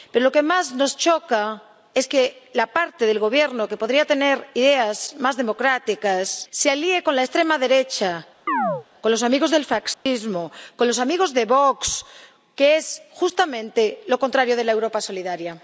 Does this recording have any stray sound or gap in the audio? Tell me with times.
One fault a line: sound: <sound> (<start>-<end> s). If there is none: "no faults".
sound: chirp (8.5-8.9 s)
sound: dropout (9.9-10.1 s)